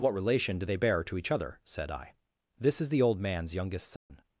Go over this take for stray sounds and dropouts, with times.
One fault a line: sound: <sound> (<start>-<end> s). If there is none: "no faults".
sound: dropout (4.0-4.1 s)